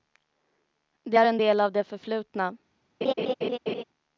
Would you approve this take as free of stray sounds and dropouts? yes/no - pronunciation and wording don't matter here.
no